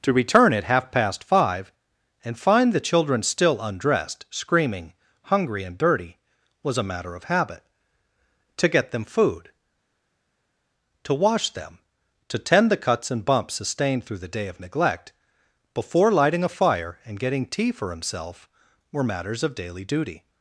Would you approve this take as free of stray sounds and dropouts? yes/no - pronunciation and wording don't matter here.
yes